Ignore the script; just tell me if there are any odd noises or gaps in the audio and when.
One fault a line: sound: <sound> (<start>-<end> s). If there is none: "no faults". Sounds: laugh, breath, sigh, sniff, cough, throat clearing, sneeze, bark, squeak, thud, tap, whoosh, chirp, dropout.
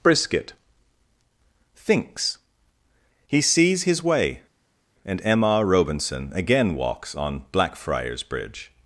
no faults